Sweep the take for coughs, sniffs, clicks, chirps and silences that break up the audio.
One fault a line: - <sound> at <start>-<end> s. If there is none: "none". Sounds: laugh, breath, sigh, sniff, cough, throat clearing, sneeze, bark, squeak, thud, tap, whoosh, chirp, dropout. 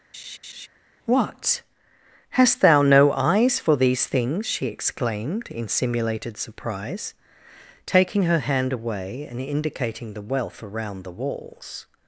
- laugh at 0.1-0.7 s